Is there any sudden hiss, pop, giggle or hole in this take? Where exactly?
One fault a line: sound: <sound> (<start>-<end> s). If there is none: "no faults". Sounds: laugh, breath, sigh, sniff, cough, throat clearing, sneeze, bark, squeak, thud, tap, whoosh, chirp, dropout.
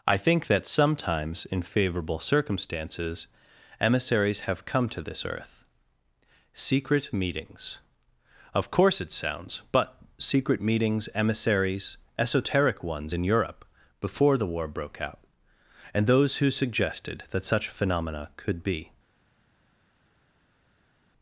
no faults